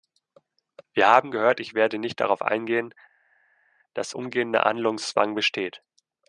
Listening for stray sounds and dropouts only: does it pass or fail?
pass